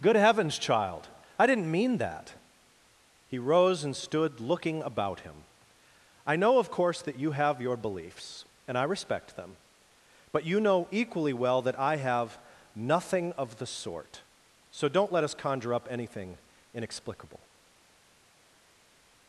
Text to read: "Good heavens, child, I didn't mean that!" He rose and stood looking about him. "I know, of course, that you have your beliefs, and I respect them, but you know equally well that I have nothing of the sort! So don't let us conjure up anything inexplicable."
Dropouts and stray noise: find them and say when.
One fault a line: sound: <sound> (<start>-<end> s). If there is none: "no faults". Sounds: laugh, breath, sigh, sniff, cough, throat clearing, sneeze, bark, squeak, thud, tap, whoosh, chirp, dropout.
no faults